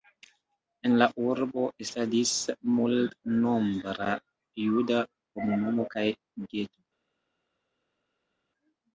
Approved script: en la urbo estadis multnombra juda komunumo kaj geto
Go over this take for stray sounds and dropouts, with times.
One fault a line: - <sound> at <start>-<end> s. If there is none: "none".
none